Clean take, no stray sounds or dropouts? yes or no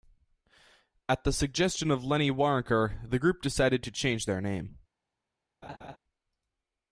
no